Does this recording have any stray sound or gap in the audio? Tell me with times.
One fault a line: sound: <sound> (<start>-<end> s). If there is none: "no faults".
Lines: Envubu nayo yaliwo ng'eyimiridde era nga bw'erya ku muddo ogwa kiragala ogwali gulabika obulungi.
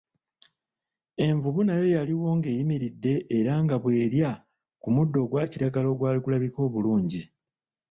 no faults